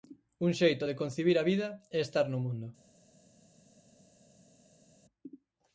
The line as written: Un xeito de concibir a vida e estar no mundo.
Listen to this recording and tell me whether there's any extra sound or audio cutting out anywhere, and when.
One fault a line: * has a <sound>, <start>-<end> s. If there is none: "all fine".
all fine